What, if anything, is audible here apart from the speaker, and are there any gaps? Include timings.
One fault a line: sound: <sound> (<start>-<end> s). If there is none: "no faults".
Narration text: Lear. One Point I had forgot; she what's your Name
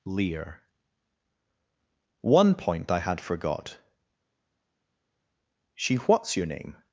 no faults